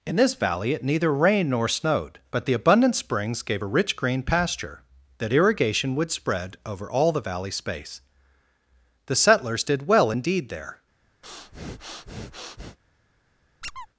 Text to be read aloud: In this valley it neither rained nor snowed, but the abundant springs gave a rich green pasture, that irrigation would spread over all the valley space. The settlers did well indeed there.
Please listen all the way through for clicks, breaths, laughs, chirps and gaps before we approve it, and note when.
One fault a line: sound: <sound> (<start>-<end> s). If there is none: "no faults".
sound: breath (11.2-12.8 s)
sound: squeak (13.6-13.9 s)